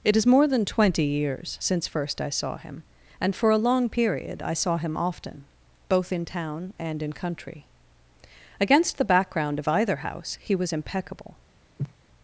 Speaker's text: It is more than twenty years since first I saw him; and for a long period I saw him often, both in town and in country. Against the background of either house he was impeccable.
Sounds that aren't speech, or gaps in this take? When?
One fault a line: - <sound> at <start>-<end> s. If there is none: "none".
- sneeze at 11.8-11.9 s